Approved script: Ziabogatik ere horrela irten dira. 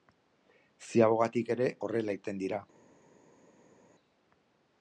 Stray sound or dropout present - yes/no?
no